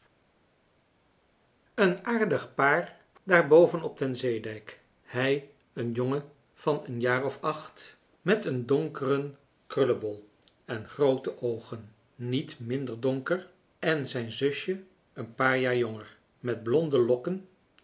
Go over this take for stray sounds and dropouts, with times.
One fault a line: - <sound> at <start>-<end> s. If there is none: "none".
none